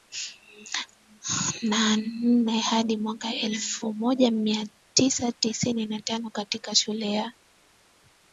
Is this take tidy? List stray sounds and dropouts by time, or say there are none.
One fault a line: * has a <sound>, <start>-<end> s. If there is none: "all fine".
all fine